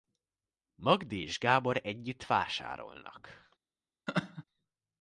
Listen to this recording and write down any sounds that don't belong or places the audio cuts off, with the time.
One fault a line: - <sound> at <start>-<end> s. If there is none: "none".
- laugh at 4.1-4.4 s